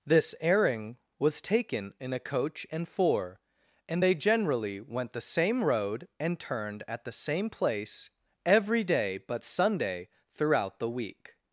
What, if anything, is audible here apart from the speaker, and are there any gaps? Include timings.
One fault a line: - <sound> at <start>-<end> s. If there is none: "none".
none